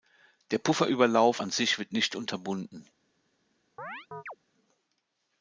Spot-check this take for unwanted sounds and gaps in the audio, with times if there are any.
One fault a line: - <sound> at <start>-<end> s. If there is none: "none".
- chirp at 3.8-4.4 s